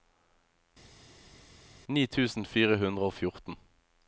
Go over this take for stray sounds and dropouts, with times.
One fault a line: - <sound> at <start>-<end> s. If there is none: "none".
none